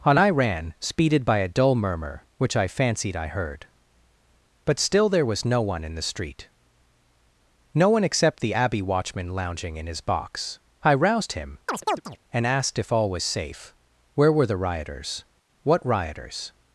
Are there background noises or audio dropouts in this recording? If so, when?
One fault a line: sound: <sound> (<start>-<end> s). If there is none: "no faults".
sound: chirp (11.7-12.2 s)